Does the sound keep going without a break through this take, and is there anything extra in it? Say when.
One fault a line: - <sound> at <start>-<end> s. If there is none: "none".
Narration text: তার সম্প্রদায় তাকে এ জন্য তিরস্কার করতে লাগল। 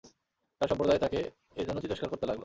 none